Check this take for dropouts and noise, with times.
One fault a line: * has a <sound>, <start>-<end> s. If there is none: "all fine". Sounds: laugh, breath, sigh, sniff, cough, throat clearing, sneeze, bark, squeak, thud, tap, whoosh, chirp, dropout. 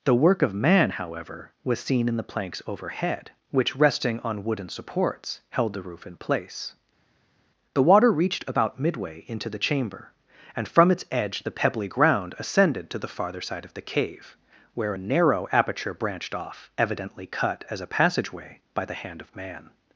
all fine